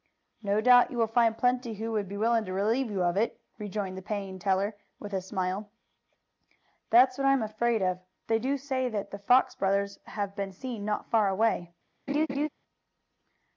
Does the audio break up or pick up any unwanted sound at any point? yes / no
yes